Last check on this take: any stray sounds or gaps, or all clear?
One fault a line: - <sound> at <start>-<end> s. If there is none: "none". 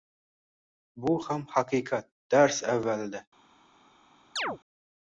- chirp at 4.4-4.6 s